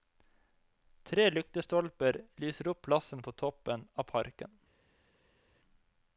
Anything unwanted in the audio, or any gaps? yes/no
no